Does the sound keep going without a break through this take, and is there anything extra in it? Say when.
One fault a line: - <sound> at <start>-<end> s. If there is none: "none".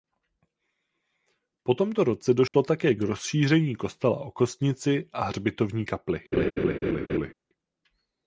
- dropout at 2.5-2.5 s
- laugh at 6.3-7.3 s